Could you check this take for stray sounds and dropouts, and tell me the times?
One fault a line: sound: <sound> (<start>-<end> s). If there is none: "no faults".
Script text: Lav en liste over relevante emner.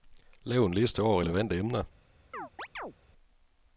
sound: chirp (2.3-2.9 s)